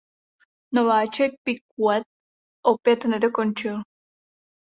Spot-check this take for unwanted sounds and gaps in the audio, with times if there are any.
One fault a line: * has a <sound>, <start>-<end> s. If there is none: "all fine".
all fine